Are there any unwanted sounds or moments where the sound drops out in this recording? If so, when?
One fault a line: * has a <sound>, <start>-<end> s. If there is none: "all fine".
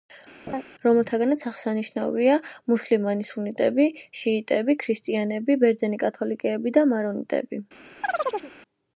* has a laugh, 0.5-0.6 s
* has a chirp, 8.0-8.5 s